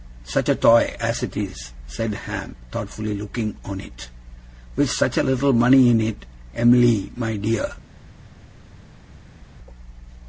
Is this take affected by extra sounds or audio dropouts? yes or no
no